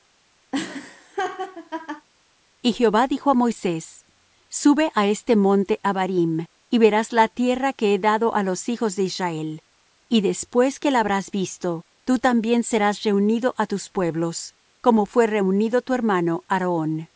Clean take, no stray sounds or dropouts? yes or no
no